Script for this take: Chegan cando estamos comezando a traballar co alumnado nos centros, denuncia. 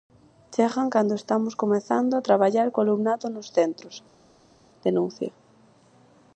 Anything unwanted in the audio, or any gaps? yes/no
no